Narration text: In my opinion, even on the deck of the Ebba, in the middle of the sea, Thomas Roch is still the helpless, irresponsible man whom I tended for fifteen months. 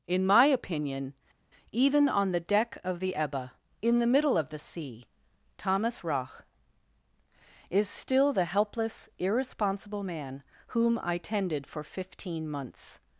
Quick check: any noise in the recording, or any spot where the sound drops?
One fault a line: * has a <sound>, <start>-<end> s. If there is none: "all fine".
all fine